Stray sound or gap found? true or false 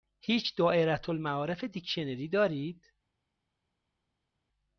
false